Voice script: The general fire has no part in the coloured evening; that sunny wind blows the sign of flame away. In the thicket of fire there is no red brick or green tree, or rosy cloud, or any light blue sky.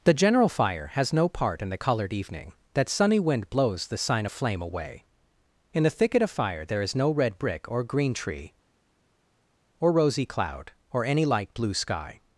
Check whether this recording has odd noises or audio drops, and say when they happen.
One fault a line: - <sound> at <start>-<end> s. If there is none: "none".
none